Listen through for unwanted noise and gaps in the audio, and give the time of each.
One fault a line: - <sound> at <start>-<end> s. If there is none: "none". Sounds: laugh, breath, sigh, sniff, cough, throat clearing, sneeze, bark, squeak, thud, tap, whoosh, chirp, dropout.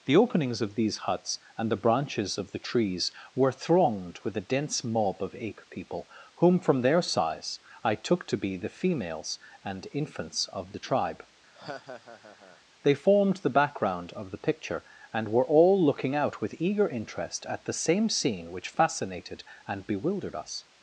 - laugh at 11.5-12.6 s